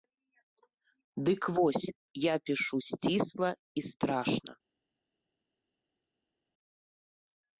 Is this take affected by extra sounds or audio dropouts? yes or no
no